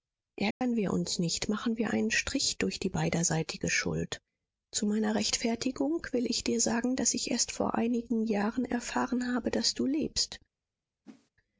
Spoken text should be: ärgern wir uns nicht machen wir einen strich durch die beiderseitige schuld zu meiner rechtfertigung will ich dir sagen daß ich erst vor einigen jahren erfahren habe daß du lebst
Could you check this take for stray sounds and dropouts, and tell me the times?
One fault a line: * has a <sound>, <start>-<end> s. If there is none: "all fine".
* has a dropout, 0.5-0.6 s
* has a whoosh, 11.0-11.3 s